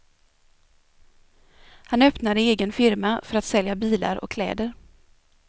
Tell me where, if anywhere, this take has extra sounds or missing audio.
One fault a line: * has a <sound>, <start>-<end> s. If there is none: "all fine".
all fine